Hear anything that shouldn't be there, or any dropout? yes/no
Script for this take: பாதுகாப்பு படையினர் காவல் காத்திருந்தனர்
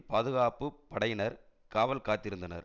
no